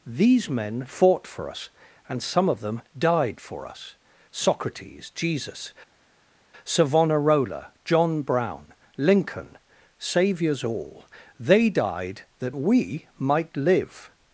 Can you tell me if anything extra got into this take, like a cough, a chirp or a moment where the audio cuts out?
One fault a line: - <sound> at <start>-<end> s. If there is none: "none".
none